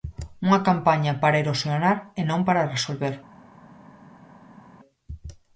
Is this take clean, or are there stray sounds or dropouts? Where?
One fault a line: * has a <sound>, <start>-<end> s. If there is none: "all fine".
all fine